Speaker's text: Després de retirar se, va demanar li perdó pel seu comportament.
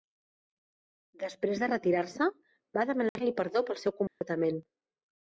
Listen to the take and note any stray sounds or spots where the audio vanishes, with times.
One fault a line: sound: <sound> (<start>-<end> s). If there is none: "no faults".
sound: dropout (3.1-3.2 s)
sound: dropout (4.1-4.2 s)